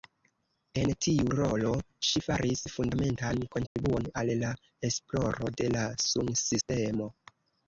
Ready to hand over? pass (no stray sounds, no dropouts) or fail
fail